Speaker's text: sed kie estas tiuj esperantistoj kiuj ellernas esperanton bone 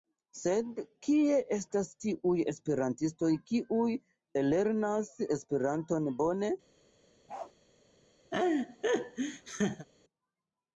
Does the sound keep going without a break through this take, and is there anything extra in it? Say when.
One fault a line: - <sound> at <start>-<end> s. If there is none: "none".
- bark at 7.3-7.5 s
- laugh at 8.3-9.9 s